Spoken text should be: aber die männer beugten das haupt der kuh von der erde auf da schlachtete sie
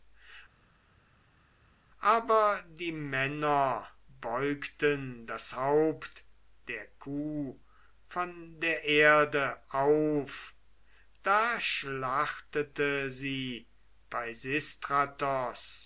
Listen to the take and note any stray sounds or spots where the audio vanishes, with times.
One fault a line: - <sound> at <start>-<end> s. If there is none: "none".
none